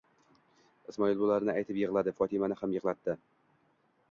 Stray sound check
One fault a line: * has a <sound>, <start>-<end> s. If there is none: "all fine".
all fine